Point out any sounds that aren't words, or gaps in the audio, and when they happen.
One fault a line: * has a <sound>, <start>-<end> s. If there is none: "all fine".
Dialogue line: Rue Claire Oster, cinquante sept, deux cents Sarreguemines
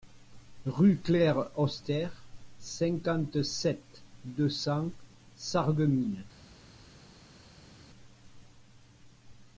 all fine